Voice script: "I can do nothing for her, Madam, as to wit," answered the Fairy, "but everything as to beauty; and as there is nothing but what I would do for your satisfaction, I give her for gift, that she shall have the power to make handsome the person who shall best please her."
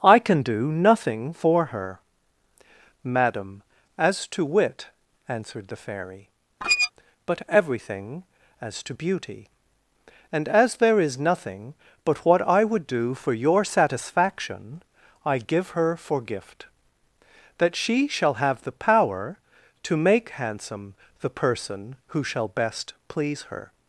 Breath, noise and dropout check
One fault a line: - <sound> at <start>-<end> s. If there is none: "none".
- squeak at 6.6-6.9 s